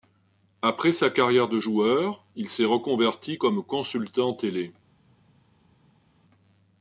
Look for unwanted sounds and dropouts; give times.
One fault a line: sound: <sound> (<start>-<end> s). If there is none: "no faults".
no faults